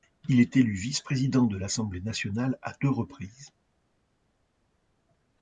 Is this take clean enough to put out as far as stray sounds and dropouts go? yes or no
yes